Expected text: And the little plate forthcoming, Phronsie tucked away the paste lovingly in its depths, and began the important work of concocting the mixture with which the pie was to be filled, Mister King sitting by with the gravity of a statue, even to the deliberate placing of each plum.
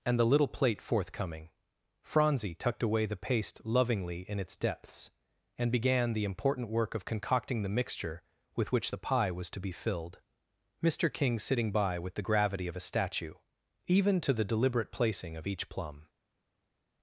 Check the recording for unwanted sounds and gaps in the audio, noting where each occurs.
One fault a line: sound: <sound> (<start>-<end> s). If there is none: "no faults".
no faults